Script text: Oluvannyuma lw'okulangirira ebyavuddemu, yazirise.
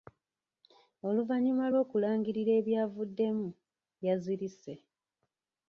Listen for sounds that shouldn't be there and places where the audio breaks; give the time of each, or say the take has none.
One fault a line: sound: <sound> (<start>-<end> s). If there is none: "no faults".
no faults